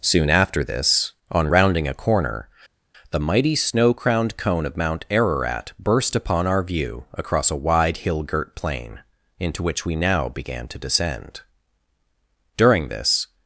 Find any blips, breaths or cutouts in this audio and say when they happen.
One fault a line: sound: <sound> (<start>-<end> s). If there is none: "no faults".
no faults